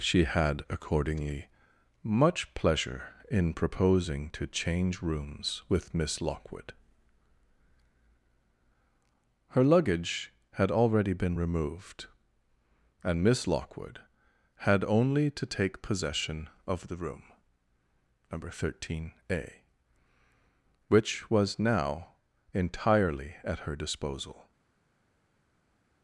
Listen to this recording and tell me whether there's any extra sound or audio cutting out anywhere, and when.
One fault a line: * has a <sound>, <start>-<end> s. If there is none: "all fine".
all fine